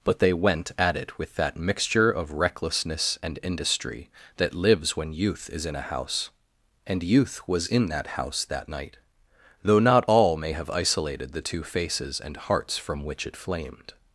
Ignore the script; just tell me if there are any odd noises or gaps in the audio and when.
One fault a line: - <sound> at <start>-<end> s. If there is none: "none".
none